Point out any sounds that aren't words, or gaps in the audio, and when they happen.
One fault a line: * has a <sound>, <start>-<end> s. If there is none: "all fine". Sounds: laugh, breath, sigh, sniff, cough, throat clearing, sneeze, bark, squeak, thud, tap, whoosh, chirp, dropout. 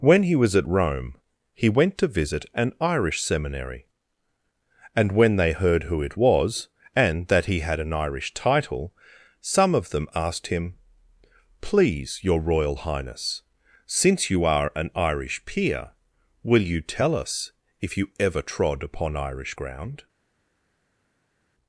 all fine